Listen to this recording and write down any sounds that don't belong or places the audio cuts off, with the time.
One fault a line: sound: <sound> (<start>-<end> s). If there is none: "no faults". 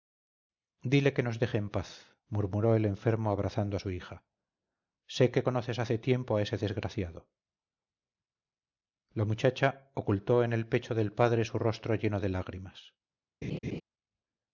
sound: laugh (13.4-13.8 s)